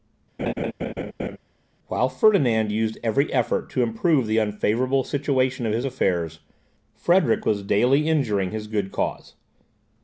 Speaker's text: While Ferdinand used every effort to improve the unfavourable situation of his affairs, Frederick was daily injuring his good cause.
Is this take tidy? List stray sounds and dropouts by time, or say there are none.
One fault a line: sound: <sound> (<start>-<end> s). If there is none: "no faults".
sound: laugh (0.4-1.4 s)